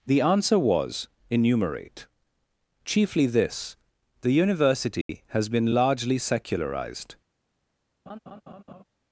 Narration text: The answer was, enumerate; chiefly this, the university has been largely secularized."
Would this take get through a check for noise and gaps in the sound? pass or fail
fail